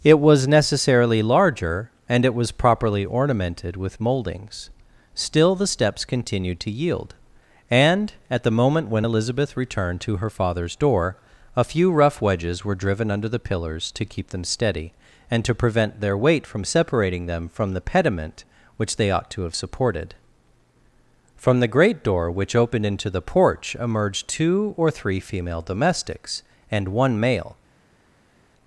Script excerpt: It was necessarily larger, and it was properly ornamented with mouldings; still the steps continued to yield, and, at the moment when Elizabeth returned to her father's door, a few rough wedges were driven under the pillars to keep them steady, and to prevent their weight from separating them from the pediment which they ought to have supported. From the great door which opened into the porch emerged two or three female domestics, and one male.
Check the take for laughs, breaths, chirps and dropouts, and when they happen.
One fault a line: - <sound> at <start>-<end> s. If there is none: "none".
none